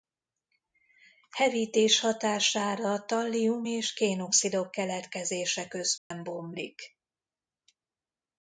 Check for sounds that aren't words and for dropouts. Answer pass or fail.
fail